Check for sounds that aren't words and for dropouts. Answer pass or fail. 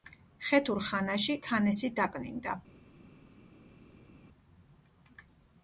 pass